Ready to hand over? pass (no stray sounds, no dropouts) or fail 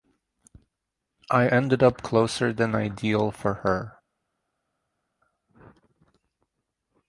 pass